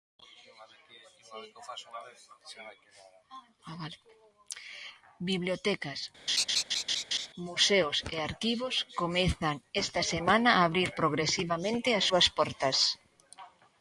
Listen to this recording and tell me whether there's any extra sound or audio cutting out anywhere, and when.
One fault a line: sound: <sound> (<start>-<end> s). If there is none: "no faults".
sound: laugh (6.3-7.3 s)